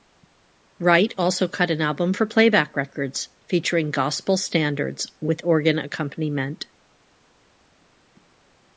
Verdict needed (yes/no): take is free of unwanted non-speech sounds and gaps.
yes